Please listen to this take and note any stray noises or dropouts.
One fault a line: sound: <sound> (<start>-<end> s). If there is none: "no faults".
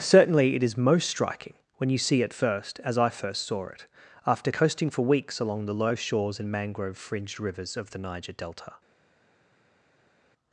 no faults